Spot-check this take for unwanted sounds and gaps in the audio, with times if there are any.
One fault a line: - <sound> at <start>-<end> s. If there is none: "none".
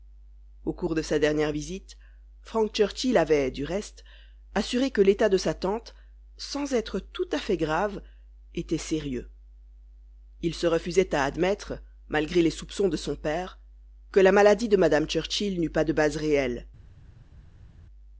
none